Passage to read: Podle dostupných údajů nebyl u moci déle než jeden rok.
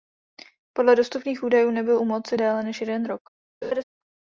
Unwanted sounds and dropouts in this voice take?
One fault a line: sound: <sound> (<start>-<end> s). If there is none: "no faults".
sound: laugh (3.6-3.8 s)